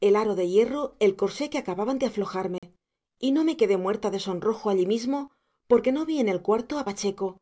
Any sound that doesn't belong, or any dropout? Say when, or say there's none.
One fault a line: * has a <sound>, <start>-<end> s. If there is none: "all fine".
* has a dropout, 2.6-2.6 s